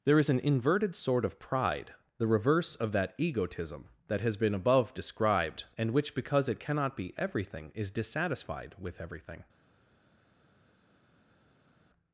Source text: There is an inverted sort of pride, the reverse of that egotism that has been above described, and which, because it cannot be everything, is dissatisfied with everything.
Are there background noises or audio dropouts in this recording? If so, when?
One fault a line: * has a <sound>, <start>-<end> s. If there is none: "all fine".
all fine